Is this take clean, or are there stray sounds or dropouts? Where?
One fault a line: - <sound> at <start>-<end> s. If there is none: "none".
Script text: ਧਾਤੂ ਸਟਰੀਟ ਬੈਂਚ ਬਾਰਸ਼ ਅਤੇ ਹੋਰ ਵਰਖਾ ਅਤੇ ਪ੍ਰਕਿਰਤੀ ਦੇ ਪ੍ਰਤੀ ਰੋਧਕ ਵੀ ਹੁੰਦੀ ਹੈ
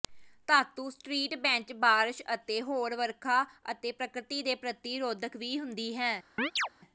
- chirp at 6.4-6.7 s